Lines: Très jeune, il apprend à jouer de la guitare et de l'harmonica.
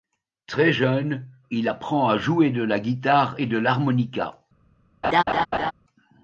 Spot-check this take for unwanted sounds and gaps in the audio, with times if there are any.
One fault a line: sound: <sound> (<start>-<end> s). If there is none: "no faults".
sound: laugh (5.0-5.7 s)